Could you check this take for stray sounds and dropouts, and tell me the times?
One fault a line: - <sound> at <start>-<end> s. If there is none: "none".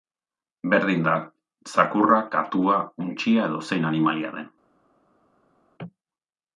none